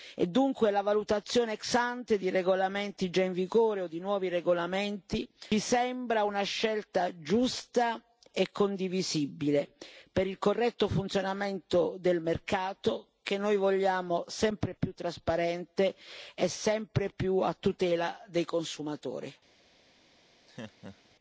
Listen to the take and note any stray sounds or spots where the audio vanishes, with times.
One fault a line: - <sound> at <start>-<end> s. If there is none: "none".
- laugh at 20.5-21.2 s